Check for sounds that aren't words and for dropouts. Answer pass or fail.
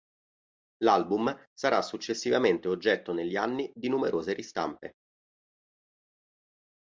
pass